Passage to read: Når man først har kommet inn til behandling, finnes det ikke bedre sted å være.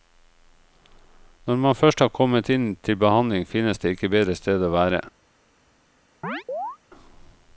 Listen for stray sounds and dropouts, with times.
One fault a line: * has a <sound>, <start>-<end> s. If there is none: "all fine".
* has a chirp, 6.2-6.8 s